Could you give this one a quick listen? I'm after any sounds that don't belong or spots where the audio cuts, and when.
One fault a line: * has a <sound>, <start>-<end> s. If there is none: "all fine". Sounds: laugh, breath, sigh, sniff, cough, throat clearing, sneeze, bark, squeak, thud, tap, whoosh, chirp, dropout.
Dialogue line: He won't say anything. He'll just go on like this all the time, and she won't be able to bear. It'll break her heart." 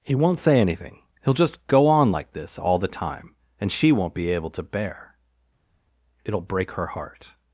all fine